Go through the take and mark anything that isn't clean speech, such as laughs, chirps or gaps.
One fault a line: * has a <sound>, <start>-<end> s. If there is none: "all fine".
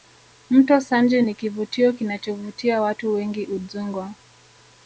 all fine